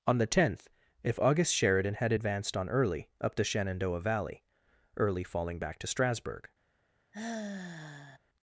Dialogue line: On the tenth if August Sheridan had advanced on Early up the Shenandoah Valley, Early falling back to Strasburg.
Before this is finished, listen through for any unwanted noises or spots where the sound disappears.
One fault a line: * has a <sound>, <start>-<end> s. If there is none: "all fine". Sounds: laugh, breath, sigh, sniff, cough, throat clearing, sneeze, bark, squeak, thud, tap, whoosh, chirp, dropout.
* has a sigh, 7.1-8.2 s